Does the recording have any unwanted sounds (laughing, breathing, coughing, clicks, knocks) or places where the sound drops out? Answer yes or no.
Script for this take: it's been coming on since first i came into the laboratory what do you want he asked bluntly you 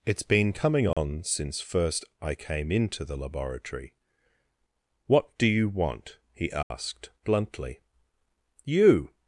yes